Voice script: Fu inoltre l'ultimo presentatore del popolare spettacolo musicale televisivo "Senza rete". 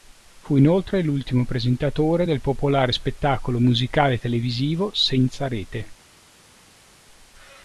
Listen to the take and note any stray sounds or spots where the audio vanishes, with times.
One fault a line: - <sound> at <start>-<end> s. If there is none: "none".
none